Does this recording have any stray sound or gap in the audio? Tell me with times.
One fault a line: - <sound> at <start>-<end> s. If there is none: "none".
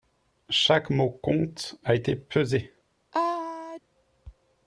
- sneeze at 3.1-3.8 s